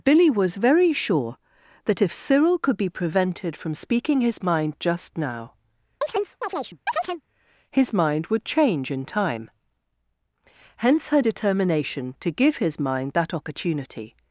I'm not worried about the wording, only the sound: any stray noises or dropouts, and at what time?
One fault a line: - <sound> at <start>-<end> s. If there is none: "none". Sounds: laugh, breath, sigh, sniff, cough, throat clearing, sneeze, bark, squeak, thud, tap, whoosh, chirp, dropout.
- chirp at 6.0-7.2 s